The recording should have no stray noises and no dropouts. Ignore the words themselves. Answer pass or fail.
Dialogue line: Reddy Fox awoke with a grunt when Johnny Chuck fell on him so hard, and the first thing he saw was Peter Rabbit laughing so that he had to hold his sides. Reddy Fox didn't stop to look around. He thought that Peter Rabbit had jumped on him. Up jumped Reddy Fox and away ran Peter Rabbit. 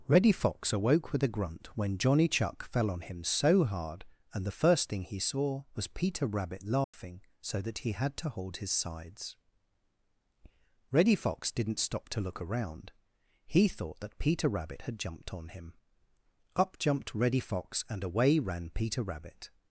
fail